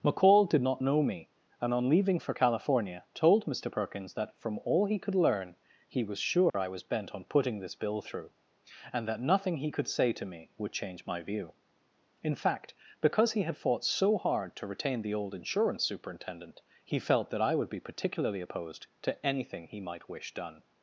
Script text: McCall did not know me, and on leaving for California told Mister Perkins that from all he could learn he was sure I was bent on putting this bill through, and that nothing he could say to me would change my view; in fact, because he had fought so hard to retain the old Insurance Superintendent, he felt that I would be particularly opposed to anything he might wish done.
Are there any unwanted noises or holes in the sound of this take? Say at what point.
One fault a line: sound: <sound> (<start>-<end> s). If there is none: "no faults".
sound: dropout (6.5-6.5 s)